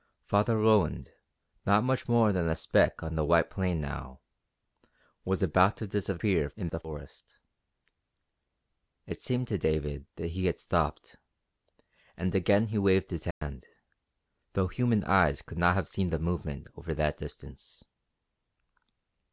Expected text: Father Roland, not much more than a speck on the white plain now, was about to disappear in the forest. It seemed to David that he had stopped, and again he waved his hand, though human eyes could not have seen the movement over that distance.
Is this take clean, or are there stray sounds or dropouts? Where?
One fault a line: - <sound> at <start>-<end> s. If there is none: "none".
- dropout at 13.3-13.4 s